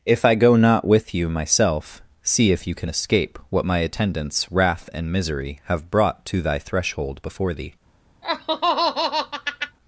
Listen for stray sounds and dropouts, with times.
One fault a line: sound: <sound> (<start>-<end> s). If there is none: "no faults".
sound: laugh (8.2-9.8 s)